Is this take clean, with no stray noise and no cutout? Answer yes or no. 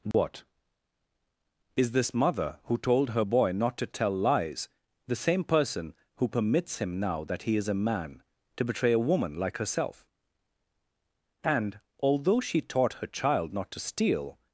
no